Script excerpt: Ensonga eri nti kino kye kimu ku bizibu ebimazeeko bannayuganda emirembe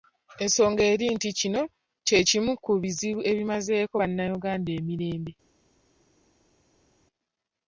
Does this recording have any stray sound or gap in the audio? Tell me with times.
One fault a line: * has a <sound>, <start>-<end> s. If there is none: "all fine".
all fine